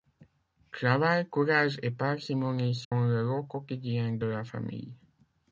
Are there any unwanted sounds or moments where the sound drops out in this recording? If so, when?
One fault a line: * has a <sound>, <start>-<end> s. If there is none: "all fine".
* has a dropout, 2.8-2.9 s